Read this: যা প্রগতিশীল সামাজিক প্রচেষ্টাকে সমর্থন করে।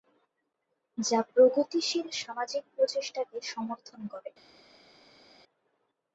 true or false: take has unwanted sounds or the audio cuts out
false